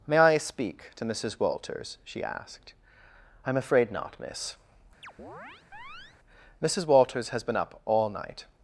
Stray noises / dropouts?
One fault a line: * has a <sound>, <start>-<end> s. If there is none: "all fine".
* has a chirp, 5.0-6.2 s